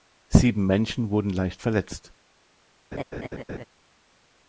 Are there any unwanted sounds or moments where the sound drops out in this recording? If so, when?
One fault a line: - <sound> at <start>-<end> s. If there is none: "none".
- laugh at 2.9-3.7 s